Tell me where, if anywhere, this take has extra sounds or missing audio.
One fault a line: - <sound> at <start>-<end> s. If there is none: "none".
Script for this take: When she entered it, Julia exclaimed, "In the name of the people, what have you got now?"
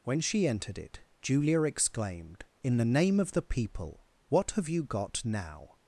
none